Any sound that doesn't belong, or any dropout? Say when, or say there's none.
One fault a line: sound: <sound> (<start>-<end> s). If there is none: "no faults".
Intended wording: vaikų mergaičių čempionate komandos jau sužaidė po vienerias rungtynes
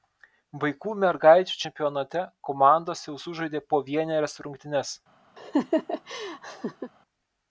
sound: laugh (5.4-6.9 s)